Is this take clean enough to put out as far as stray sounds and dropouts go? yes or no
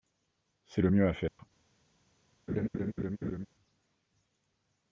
no